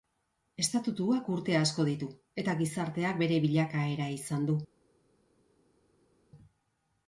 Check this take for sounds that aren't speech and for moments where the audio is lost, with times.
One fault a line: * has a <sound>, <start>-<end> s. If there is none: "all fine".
all fine